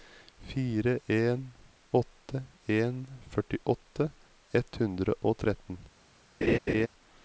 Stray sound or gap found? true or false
true